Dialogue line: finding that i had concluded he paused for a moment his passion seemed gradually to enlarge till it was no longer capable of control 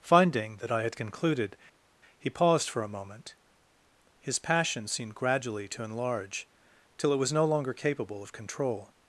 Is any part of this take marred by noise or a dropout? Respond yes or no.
no